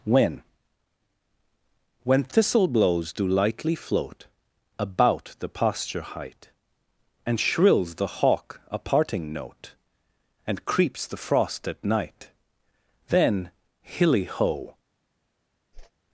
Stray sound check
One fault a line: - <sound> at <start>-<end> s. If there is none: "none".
- whoosh at 15.7-15.9 s